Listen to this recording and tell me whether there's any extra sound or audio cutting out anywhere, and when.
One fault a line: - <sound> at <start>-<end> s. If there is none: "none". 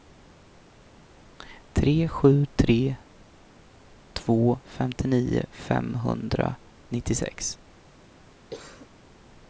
- cough at 8.5-8.9 s